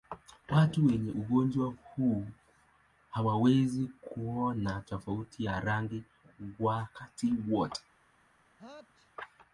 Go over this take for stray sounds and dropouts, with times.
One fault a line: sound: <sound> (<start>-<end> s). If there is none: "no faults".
sound: sneeze (8.6-9.1 s)